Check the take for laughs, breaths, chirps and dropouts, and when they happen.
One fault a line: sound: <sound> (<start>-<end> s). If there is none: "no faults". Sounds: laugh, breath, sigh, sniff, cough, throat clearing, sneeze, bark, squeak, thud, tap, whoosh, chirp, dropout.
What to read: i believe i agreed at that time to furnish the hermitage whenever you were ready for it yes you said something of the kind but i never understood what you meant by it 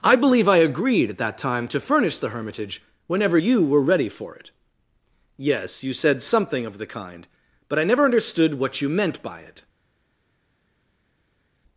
no faults